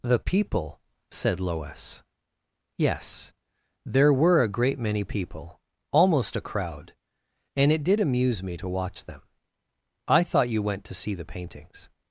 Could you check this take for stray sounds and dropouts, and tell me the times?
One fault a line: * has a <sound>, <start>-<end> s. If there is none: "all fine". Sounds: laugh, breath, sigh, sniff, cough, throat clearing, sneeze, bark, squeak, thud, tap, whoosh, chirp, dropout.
all fine